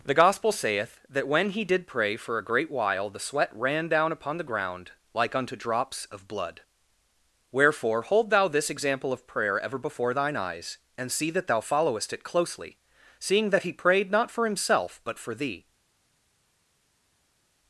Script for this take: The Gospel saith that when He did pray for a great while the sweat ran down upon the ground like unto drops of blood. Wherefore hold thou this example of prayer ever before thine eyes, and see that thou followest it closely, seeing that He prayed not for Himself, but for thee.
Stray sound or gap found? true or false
false